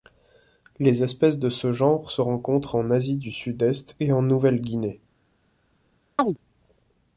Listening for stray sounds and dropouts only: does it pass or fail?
fail